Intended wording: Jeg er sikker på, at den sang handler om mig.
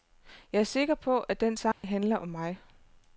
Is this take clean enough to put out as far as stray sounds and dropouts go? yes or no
no